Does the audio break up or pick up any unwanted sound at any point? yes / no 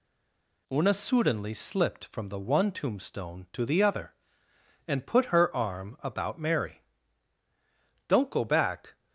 no